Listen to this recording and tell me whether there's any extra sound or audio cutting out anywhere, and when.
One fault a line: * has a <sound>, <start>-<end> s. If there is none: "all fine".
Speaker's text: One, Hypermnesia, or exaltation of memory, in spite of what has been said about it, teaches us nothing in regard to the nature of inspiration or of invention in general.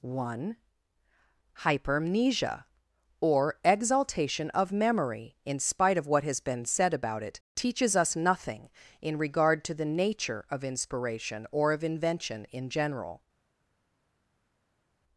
all fine